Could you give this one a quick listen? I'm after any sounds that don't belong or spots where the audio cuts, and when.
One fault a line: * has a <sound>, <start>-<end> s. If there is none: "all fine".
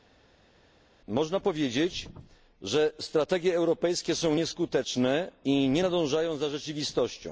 all fine